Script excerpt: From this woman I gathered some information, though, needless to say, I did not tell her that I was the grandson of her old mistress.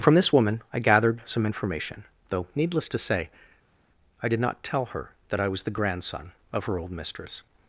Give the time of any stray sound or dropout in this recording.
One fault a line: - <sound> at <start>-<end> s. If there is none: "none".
none